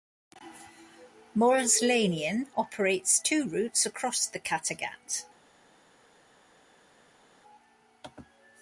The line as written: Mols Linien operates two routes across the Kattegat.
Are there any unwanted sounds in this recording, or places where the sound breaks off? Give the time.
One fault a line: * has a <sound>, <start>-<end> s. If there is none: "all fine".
all fine